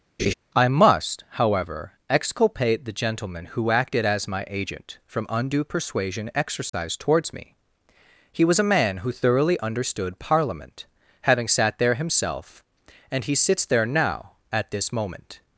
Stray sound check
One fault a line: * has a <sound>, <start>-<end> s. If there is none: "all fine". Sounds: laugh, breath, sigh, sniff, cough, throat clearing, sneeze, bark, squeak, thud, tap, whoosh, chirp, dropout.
* has a laugh, 0.2-0.3 s
* has a dropout, 6.7-6.7 s